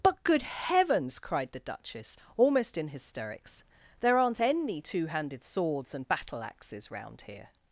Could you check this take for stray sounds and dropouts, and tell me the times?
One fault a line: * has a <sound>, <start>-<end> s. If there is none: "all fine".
all fine